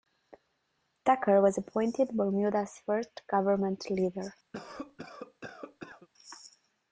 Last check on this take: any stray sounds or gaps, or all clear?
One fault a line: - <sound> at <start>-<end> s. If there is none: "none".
- cough at 4.5-6.1 s